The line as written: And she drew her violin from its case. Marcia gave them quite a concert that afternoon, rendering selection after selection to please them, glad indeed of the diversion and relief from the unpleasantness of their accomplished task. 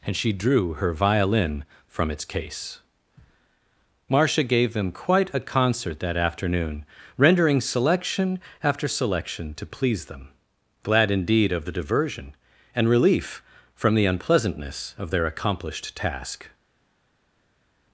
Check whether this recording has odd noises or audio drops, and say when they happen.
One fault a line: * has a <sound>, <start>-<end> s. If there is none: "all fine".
all fine